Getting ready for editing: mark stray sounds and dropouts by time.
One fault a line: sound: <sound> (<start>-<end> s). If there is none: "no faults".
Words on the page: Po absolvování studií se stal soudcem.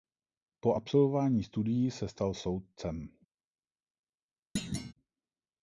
sound: thud (4.6-4.9 s)